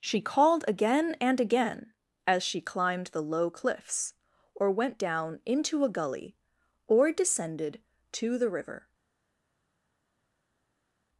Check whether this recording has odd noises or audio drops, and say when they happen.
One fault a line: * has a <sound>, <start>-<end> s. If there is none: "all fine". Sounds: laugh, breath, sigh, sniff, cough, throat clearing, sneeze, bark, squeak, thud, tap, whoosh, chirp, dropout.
all fine